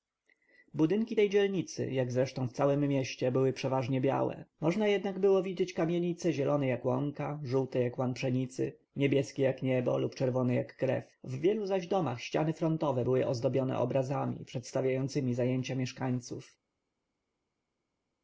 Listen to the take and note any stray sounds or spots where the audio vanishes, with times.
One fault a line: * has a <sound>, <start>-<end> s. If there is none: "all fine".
all fine